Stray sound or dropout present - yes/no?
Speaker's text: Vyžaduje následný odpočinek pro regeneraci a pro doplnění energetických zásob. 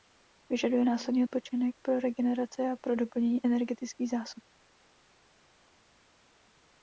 no